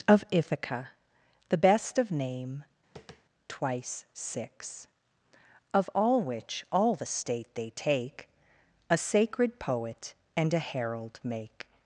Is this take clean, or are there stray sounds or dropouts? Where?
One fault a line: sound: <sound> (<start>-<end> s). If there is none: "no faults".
sound: tap (3.0-3.2 s)